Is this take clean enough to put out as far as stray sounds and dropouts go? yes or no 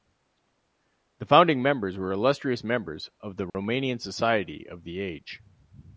no